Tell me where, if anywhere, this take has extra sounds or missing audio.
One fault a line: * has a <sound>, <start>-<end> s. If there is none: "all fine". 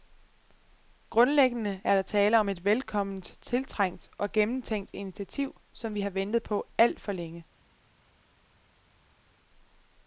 all fine